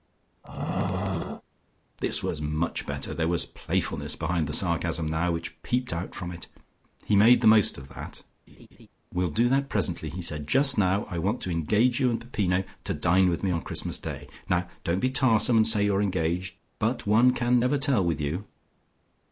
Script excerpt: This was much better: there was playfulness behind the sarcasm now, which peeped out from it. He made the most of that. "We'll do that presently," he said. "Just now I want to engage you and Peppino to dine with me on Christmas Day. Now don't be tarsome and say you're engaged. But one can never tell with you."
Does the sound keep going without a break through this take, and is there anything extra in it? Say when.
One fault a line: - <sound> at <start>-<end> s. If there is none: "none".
- throat clearing at 0.4-1.4 s
- laugh at 8.5-8.9 s